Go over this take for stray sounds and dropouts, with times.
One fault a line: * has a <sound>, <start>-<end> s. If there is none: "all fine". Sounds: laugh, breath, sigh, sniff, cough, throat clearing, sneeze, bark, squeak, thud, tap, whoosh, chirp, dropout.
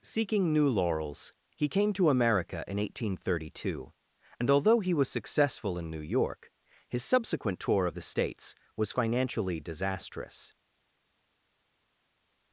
all fine